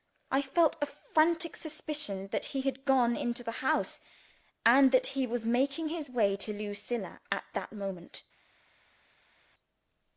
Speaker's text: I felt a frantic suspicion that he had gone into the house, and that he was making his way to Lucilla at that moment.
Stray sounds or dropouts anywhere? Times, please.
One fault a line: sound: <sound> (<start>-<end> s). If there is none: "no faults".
no faults